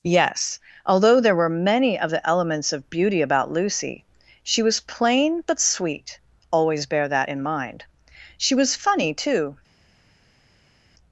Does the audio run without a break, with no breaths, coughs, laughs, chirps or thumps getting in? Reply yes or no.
yes